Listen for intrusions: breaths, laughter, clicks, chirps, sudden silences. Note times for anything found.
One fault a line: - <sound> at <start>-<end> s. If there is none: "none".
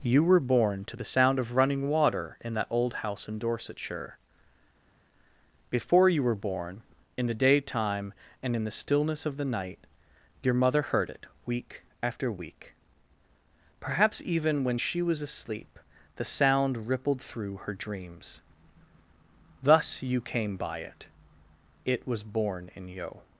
none